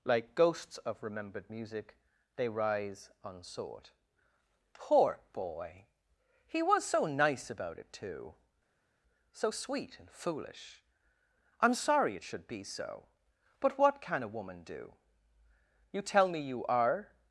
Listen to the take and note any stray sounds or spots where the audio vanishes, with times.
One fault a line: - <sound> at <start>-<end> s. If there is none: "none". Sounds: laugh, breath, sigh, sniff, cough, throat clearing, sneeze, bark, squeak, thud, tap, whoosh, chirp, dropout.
none